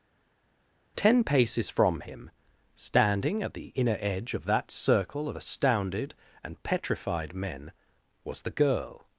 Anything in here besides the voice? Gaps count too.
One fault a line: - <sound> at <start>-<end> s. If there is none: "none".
none